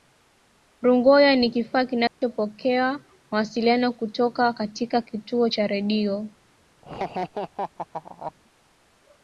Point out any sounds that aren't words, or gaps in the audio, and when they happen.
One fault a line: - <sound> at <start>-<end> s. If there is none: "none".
- dropout at 2.1-2.2 s
- laugh at 6.8-8.3 s